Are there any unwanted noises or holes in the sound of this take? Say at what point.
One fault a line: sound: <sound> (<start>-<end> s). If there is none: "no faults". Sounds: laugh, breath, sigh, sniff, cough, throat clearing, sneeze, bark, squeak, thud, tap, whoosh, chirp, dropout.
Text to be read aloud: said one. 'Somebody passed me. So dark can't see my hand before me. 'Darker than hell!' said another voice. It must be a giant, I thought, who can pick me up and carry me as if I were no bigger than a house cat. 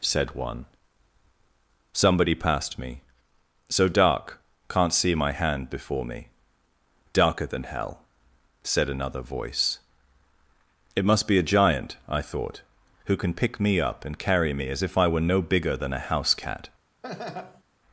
sound: laugh (17.0-17.6 s)